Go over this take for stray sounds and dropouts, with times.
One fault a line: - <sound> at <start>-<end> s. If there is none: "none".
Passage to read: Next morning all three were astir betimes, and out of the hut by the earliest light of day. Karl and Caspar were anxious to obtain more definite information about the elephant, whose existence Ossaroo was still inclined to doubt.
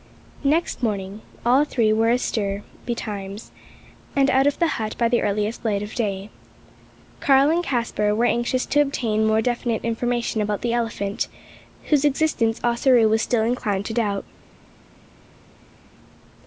none